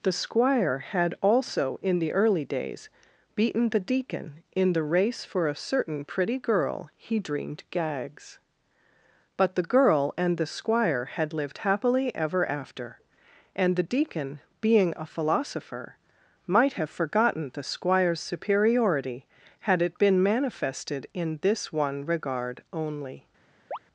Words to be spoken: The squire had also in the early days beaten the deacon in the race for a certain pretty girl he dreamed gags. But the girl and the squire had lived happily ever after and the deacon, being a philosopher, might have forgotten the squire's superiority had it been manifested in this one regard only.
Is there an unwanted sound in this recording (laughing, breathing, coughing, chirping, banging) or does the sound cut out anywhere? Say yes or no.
yes